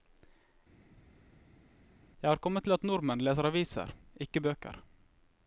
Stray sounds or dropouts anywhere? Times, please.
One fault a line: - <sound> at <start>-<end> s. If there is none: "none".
none